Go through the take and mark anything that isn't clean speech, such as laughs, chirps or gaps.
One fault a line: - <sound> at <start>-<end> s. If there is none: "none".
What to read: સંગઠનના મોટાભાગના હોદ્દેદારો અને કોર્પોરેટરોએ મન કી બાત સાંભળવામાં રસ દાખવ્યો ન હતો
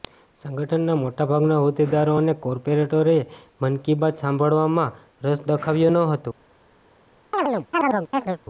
- chirp at 7.3-8.4 s